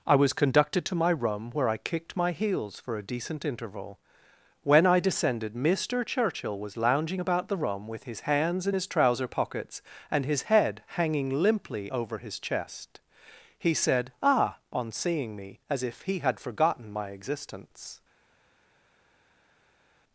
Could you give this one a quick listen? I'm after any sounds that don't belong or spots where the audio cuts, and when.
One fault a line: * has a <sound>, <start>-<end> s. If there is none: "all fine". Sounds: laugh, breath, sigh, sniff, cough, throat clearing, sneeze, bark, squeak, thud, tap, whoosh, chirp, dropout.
all fine